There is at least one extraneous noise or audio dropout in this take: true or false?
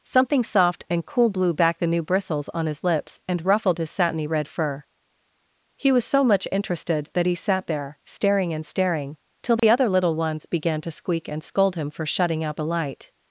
true